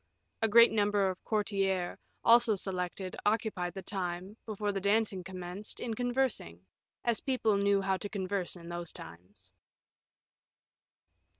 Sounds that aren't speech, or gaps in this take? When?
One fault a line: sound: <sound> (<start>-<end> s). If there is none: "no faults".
no faults